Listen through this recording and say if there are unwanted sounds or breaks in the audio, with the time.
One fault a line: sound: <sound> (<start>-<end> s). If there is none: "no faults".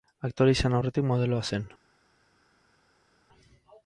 no faults